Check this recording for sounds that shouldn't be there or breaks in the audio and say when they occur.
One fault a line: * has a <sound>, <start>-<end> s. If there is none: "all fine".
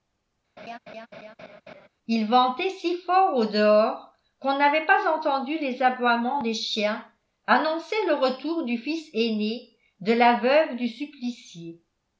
* has a laugh, 0.6-1.9 s